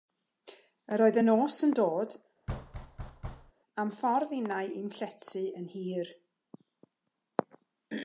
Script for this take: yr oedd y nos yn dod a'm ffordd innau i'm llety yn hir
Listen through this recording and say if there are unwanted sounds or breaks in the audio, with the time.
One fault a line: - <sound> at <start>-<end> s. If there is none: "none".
- thud at 2.5-3.5 s